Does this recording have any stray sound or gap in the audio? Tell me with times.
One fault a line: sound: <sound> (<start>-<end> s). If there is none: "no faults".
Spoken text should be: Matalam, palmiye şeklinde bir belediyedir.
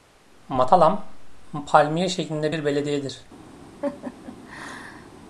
sound: laugh (3.8-5.1 s)